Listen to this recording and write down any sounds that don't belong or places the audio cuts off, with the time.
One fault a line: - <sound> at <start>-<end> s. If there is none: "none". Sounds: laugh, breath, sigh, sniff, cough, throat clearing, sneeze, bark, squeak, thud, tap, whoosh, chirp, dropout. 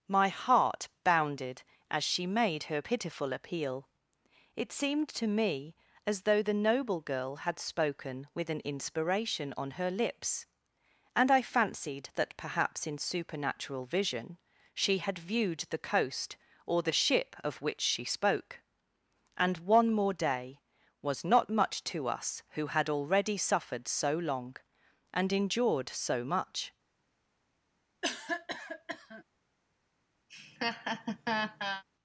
- cough at 28.0-29.2 s
- laugh at 30.3-31.8 s